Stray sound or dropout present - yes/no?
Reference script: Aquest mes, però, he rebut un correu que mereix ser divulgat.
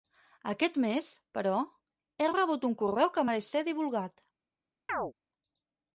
yes